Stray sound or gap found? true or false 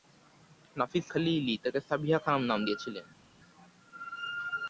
false